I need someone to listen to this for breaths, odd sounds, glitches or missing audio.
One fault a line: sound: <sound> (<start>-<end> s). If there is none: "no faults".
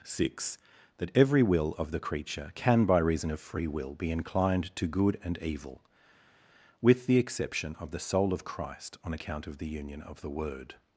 no faults